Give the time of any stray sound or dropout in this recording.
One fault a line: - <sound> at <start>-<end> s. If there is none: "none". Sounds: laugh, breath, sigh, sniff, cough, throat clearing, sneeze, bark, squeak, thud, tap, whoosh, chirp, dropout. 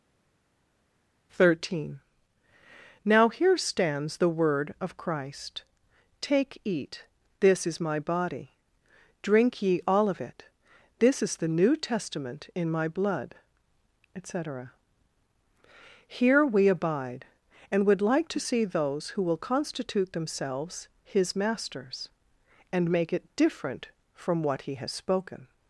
none